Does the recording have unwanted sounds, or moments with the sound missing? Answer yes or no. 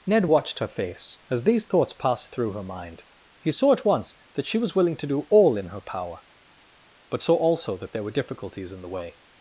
no